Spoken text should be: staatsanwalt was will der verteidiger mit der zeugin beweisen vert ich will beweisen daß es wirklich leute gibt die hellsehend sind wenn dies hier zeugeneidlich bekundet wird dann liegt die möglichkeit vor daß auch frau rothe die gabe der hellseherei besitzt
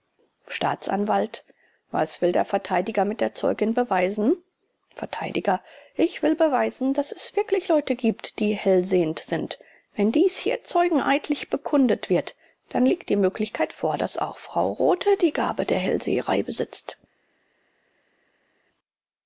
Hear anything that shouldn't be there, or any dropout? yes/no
no